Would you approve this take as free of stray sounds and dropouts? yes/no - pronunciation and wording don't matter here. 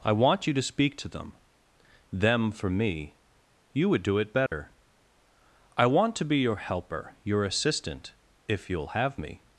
no